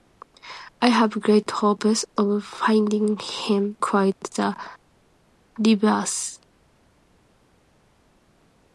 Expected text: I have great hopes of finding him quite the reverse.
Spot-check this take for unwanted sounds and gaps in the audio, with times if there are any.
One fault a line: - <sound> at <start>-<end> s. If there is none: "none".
none